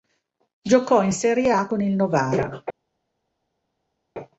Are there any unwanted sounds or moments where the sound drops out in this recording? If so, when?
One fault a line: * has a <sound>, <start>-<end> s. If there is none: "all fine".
all fine